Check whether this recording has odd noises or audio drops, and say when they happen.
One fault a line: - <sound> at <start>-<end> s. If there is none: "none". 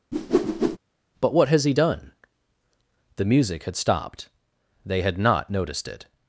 - whoosh at 0.1-0.8 s